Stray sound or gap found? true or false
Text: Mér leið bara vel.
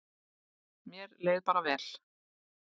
false